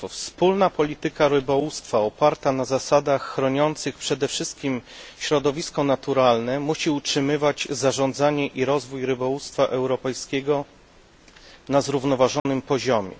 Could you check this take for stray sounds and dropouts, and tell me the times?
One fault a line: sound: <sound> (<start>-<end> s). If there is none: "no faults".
sound: dropout (12.4-12.5 s)